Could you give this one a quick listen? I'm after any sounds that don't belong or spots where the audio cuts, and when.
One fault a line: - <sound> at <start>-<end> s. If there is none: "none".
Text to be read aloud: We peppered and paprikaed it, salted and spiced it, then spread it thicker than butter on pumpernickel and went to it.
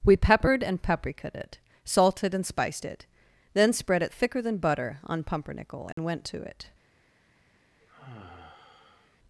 - dropout at 5.9-6.0 s
- sigh at 7.8-9.2 s